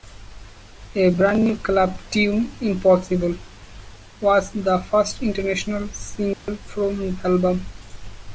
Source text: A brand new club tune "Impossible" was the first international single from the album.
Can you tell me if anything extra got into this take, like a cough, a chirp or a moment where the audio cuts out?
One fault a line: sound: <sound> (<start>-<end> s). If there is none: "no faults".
sound: dropout (6.3-6.5 s)